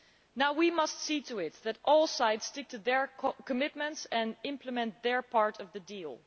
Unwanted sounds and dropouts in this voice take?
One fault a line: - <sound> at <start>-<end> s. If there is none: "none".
none